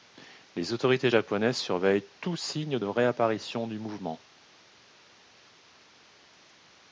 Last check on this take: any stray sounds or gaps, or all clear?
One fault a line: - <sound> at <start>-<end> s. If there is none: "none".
none